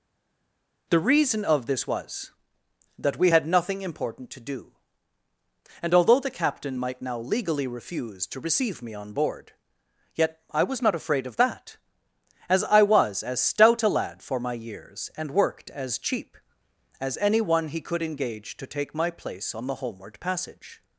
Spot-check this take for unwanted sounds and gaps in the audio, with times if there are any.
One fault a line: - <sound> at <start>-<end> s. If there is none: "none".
none